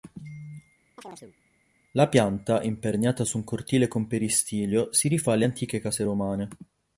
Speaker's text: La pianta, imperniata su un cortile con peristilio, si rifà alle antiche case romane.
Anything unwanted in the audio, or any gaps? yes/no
yes